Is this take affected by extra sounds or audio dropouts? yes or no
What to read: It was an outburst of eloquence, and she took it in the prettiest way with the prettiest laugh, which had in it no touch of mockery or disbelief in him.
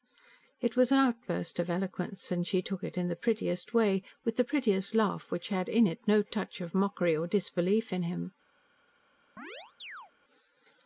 yes